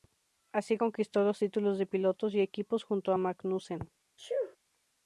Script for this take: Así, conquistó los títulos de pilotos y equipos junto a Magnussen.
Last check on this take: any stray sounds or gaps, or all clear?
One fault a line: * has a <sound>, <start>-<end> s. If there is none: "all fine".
* has a sneeze, 4.2-4.6 s